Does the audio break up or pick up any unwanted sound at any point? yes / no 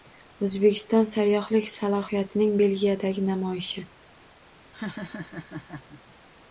yes